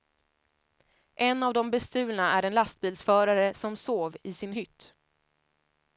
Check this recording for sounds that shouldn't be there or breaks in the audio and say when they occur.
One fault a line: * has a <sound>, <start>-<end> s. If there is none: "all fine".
all fine